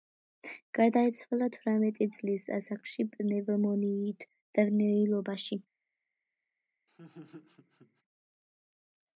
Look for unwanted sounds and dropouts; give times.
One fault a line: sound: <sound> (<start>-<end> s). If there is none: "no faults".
sound: laugh (6.9-8.0 s)